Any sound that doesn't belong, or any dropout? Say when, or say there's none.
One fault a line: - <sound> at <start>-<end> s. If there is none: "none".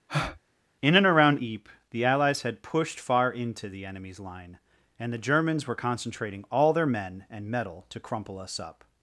- breath at 0.1-0.4 s